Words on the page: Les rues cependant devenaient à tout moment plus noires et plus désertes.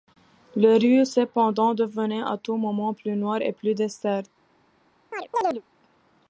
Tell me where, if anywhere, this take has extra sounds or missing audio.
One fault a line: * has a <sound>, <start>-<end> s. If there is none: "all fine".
* has a chirp, 5.1-5.6 s